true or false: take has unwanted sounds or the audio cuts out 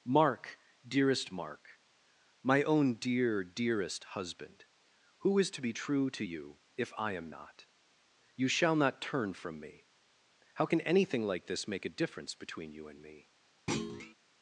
true